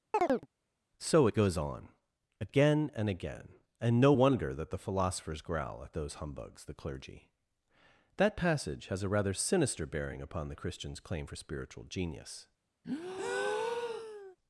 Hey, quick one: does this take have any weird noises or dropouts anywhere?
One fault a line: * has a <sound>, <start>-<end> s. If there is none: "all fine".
* has a chirp, 0.1-0.5 s
* has a breath, 12.8-14.4 s